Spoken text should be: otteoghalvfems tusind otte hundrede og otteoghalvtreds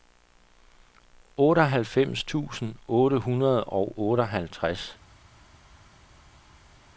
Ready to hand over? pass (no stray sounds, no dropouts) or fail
pass